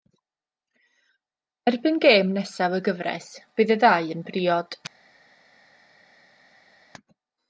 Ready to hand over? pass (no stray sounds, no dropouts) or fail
pass